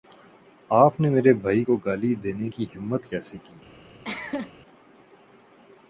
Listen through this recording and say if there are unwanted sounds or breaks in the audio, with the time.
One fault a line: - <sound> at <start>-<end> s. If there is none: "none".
- cough at 4.0-4.5 s